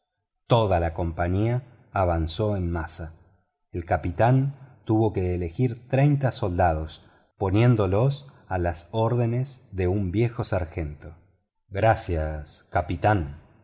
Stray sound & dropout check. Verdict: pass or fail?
pass